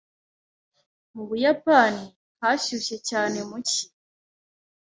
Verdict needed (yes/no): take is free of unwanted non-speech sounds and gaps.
yes